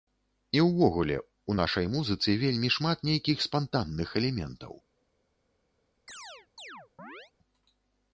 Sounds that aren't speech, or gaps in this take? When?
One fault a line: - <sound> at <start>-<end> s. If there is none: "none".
- chirp at 6.1-7.3 s